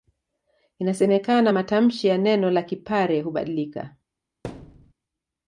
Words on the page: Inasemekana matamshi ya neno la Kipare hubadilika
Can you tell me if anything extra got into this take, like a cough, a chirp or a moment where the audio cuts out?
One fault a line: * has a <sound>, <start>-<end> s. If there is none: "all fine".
* has a thud, 4.4-4.9 s